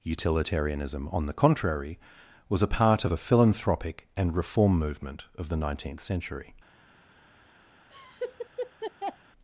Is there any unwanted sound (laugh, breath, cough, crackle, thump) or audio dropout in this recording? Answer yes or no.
yes